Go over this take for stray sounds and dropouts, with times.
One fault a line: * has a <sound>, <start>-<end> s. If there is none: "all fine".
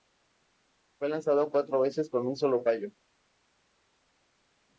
all fine